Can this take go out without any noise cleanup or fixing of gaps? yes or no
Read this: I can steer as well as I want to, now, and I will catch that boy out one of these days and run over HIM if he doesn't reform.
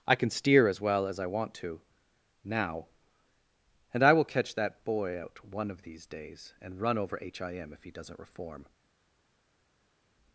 yes